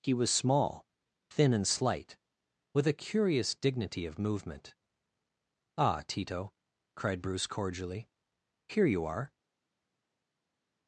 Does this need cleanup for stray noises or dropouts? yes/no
no